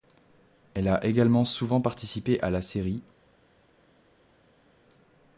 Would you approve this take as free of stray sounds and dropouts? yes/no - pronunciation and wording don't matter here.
yes